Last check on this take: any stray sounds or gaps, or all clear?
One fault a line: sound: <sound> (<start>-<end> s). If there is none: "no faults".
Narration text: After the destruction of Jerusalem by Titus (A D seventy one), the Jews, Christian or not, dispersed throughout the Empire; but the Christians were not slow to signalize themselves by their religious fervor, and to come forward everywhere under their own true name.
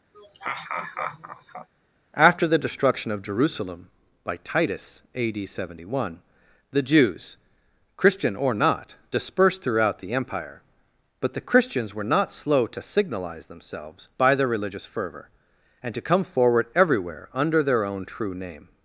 sound: laugh (0.1-1.7 s)